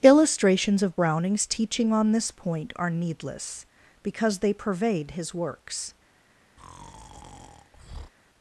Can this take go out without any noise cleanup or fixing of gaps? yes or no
no